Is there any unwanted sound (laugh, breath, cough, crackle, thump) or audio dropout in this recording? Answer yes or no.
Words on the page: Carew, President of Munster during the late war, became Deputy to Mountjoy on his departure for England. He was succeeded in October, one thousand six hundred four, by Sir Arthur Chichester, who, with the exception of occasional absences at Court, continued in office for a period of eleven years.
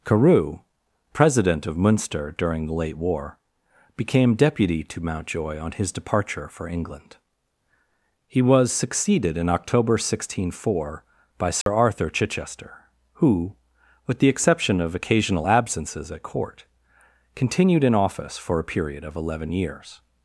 yes